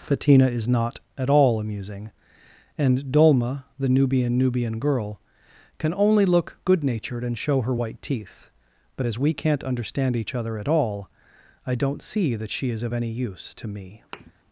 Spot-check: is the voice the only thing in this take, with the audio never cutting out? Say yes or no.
no